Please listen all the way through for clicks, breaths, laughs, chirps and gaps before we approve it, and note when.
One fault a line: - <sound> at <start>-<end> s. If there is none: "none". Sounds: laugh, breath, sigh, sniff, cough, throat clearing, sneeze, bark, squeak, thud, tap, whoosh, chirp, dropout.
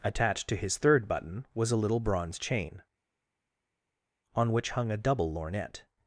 none